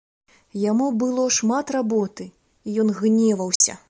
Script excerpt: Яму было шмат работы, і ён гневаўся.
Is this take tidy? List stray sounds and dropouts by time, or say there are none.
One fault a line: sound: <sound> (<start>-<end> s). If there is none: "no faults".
sound: dropout (3.6-3.6 s)